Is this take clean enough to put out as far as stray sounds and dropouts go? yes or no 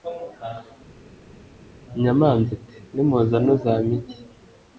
yes